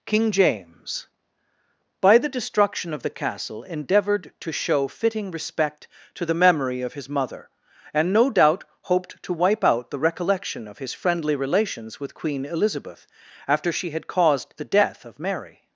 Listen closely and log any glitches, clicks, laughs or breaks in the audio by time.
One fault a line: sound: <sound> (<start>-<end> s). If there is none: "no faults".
no faults